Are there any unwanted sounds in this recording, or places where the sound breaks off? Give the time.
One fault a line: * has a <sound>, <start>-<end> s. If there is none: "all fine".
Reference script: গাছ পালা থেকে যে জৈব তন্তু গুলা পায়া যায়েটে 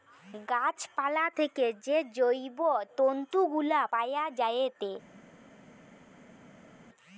all fine